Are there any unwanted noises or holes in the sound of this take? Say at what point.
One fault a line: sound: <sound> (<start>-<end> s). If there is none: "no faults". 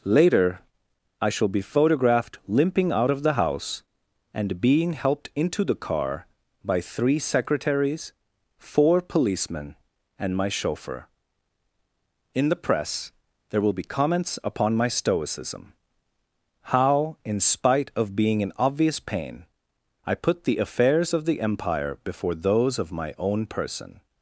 no faults